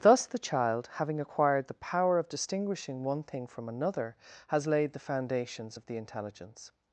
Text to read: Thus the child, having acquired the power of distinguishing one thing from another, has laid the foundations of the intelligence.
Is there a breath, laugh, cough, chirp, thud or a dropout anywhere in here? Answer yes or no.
no